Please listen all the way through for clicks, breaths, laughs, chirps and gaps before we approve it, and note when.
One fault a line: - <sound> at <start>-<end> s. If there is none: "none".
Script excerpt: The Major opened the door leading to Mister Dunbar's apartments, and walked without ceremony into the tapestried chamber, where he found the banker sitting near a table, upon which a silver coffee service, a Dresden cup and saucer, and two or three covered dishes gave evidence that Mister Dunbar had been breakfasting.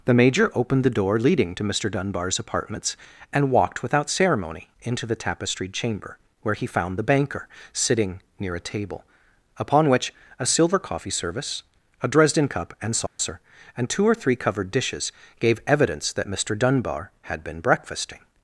- dropout at 13.1-13.2 s